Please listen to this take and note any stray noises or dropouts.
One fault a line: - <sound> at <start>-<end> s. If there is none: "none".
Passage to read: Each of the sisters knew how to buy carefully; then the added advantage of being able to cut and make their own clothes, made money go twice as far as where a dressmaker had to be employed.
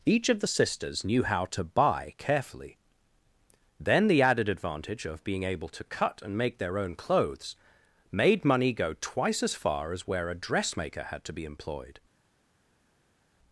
none